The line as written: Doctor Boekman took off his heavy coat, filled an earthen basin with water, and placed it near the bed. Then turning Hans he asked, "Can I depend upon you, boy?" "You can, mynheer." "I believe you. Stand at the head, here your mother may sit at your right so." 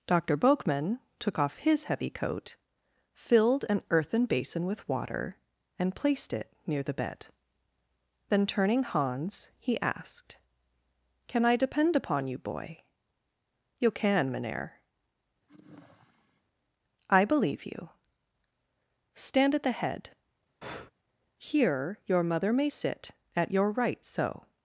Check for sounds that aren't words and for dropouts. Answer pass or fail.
fail